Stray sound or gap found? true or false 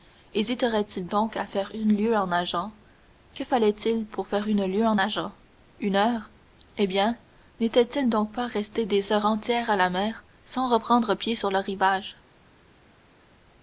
false